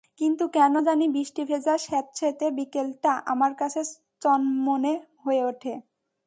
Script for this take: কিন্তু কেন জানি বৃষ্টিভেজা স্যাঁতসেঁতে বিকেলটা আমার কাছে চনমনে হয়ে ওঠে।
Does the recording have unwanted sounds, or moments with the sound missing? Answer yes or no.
no